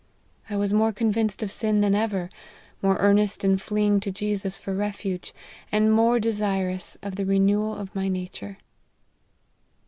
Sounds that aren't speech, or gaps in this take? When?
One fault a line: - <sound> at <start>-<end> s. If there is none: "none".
none